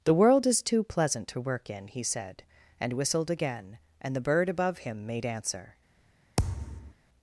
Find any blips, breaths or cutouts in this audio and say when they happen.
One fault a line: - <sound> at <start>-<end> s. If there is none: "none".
- thud at 6.4-6.9 s